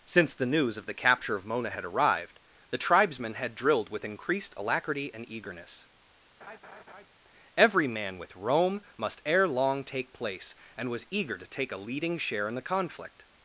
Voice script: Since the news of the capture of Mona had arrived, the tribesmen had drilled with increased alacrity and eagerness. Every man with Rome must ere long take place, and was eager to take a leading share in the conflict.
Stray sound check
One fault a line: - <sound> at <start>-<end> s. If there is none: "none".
- laugh at 6.4-7.1 s